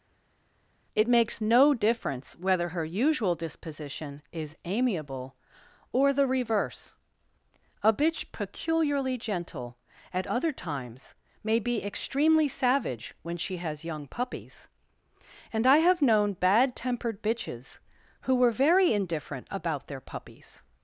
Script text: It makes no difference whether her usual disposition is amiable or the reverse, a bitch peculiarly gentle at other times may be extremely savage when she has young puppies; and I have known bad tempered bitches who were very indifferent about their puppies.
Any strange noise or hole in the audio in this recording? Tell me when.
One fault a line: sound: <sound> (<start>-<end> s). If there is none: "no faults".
no faults